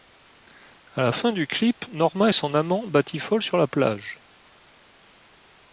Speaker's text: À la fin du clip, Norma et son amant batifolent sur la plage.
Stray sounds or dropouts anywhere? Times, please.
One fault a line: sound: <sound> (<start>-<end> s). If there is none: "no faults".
no faults